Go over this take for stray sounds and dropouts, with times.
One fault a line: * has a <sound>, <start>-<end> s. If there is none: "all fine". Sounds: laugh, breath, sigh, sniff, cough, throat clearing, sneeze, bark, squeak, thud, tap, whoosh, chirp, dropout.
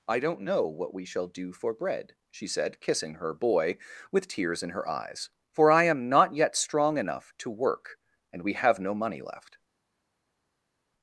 all fine